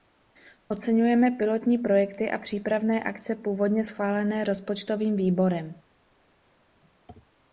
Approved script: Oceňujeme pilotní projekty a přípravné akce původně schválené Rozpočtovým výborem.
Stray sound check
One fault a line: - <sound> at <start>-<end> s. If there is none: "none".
none